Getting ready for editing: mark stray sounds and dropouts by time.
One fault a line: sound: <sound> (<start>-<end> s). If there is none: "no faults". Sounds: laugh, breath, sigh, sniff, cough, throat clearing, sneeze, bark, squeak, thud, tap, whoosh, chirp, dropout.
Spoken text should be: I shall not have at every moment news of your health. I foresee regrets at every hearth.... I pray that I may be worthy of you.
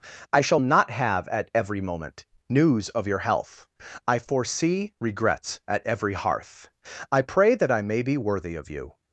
no faults